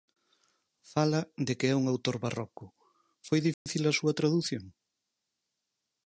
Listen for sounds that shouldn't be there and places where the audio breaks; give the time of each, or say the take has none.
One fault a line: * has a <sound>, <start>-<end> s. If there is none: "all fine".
* has a dropout, 3.5-3.7 s